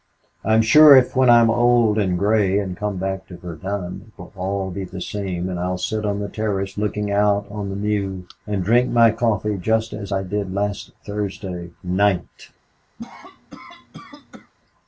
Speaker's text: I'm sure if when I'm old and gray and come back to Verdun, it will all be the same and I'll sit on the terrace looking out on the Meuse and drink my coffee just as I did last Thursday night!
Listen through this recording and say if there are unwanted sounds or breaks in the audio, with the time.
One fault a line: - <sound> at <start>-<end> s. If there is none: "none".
- cough at 13.0-14.5 s